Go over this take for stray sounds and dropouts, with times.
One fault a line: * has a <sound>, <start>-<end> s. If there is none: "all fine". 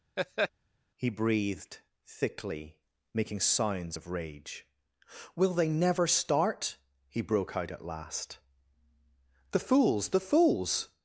* has a laugh, 0.2-0.5 s